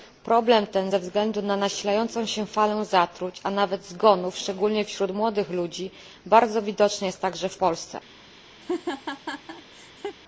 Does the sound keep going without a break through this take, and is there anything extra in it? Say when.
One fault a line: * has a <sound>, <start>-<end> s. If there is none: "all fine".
* has a laugh, 8.6-10.2 s